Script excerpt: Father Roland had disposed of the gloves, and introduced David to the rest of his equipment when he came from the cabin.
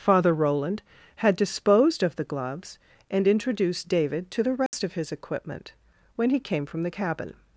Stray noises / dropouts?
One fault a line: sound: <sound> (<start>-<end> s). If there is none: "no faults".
sound: dropout (4.7-4.7 s)